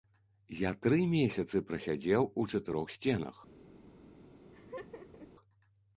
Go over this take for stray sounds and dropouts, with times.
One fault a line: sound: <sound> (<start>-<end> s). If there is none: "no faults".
sound: laugh (4.4-5.3 s)